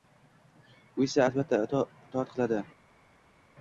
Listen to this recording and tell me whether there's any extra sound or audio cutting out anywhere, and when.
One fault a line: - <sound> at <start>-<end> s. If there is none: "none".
none